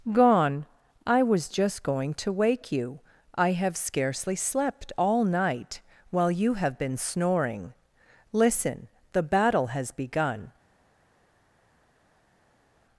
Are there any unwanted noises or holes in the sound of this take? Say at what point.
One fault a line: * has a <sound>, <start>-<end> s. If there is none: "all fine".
all fine